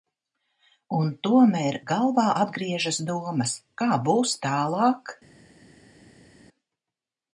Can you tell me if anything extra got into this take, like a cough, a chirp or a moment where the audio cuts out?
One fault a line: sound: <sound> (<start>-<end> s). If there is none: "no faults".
no faults